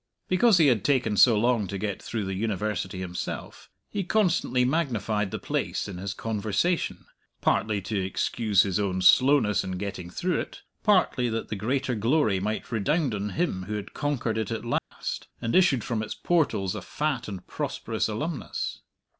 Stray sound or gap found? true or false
true